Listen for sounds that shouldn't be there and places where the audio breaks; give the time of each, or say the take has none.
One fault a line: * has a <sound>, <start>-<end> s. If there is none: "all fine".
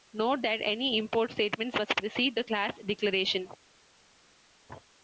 all fine